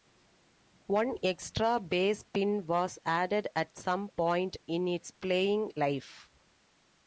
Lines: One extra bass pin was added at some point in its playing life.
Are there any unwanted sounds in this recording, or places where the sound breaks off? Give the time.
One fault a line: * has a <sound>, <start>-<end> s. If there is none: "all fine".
all fine